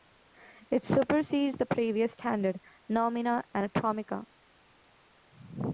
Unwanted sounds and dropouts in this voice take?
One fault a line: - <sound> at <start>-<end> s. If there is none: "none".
none